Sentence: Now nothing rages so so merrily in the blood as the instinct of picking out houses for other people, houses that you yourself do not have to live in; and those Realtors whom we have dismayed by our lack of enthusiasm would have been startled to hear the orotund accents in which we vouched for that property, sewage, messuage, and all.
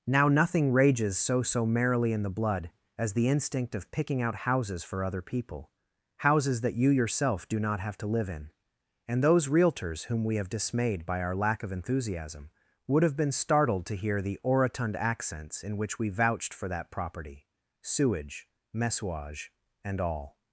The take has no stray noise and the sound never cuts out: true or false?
true